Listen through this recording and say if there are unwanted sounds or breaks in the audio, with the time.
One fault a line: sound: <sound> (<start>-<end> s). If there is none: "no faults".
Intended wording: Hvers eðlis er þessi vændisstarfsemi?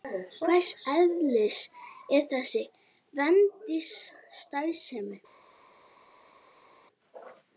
no faults